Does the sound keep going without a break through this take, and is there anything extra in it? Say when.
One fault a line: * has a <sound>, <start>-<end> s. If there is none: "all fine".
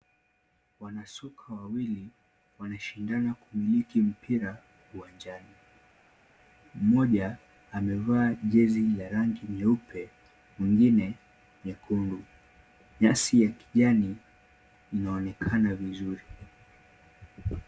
all fine